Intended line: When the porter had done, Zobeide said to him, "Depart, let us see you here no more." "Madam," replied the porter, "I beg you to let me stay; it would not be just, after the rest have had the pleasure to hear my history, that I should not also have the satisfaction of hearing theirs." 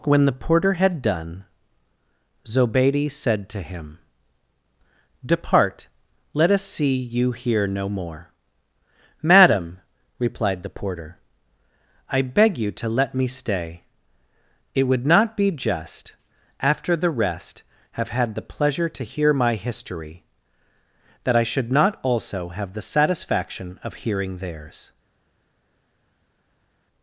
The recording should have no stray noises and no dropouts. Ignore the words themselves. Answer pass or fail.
pass